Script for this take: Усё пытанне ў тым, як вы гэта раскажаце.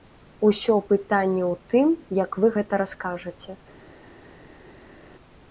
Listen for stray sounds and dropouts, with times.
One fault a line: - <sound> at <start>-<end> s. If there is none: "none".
none